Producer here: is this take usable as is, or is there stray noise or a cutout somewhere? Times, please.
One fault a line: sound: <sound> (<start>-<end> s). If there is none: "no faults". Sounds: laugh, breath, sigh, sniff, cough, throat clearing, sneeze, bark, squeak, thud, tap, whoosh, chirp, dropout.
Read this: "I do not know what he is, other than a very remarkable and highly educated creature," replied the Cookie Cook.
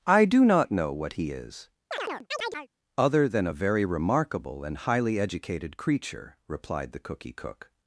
sound: chirp (1.9-2.7 s)